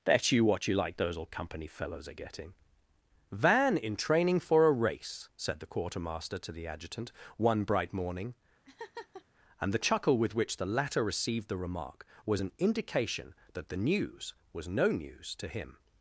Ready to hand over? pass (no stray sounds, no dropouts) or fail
fail